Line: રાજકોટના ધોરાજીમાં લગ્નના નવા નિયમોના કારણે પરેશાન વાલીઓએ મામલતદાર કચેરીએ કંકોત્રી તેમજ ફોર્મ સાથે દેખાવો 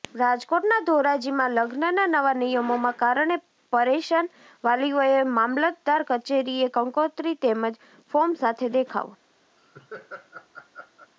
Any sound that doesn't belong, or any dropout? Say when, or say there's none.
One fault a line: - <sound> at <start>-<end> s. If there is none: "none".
- laugh at 9.6-11.1 s